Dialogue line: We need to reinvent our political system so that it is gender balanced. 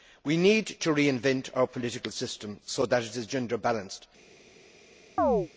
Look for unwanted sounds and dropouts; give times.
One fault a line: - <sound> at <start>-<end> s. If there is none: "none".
- chirp at 5.2-5.5 s